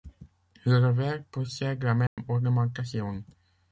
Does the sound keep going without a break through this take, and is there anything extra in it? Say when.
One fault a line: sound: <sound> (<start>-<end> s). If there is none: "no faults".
sound: dropout (2.1-2.2 s)